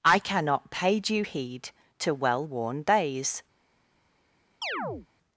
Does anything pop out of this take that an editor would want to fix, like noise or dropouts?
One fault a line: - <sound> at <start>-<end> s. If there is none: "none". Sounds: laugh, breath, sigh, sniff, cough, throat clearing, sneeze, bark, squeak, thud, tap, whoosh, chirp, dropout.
- chirp at 4.6-5.1 s